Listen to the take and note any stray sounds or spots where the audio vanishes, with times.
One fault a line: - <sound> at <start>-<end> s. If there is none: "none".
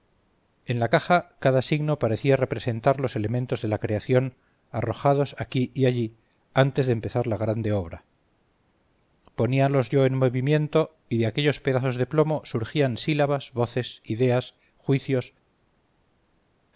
none